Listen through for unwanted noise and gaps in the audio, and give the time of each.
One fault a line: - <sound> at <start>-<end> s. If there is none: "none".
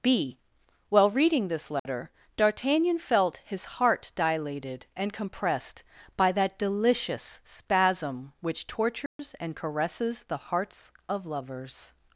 - dropout at 1.8-1.9 s
- dropout at 9.1-9.2 s